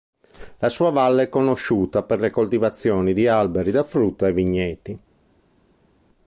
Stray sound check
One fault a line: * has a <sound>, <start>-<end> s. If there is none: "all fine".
all fine